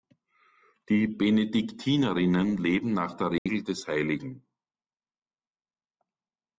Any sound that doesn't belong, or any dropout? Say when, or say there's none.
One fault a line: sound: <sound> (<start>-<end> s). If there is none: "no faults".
sound: dropout (3.4-3.5 s)